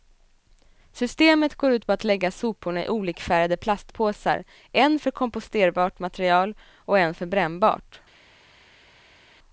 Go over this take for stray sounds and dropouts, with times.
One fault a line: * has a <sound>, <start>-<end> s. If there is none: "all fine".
all fine